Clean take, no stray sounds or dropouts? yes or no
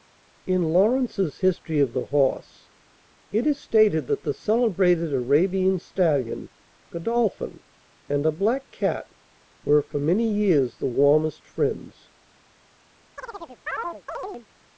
no